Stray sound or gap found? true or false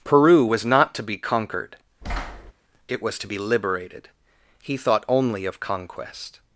true